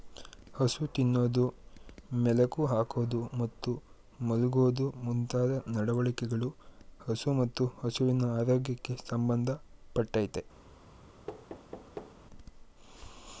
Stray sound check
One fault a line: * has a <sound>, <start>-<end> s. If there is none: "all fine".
* has a thud, 11.3-12.2 s